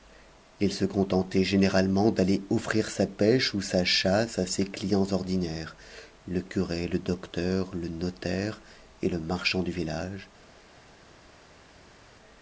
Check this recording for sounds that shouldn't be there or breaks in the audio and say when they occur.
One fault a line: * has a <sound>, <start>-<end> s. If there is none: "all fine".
all fine